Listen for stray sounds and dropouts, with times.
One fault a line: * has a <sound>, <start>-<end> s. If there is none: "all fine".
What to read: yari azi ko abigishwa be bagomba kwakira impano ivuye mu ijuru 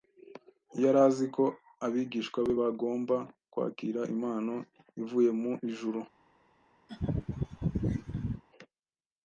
* has a laugh, 6.9-8.4 s